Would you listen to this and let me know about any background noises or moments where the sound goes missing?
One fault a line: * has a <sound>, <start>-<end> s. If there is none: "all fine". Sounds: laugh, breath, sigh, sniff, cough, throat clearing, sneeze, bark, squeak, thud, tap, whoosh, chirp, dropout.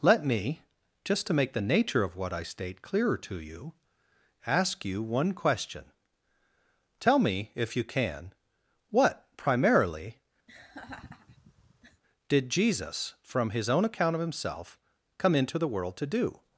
* has a laugh, 10.5-12.0 s